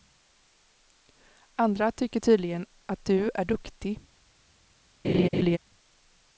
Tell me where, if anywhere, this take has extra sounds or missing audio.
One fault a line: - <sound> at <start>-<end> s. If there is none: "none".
- laugh at 5.0-5.6 s